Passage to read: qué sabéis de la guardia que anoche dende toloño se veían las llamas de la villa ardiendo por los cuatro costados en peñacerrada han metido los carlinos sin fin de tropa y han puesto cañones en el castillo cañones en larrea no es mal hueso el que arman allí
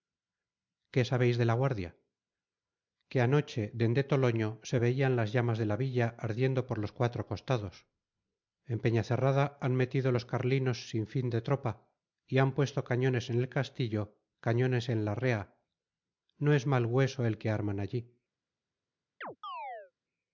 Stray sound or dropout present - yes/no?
yes